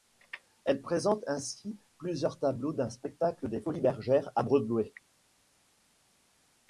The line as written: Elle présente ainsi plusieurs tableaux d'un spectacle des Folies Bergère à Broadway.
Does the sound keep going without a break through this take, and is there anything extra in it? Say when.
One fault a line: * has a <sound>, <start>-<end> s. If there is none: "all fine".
all fine